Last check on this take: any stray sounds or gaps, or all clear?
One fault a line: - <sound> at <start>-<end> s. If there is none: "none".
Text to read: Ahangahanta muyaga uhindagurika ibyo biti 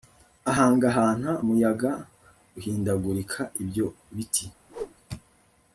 - whoosh at 4.7-5.0 s